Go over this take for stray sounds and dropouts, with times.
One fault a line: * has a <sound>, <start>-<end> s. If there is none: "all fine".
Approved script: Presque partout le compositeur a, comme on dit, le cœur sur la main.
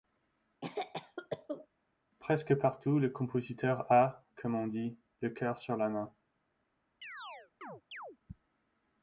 * has a cough, 0.6-1.7 s
* has a chirp, 7.0-8.2 s